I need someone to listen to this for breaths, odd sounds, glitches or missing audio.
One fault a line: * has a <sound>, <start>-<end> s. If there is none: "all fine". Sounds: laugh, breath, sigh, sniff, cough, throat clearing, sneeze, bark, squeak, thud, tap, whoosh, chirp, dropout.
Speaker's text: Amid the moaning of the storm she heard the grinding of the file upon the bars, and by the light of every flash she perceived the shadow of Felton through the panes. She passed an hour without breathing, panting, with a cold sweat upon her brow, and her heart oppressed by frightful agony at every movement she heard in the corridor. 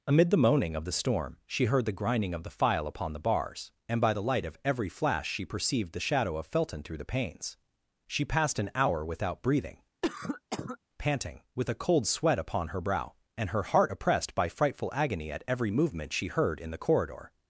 * has a cough, 10.0-10.8 s